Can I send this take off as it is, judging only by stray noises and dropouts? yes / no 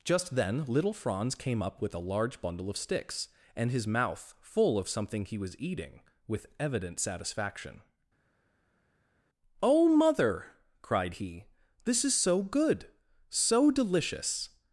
yes